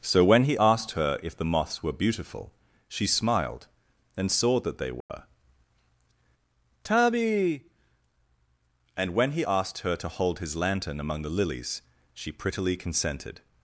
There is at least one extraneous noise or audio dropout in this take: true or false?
true